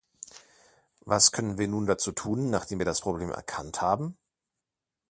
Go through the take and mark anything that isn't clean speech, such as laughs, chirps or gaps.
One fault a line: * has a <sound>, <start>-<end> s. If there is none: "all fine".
all fine